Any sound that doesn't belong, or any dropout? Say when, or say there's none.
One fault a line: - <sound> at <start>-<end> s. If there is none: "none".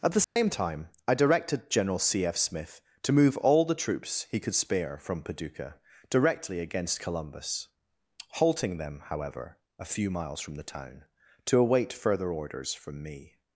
- dropout at 0.2-0.4 s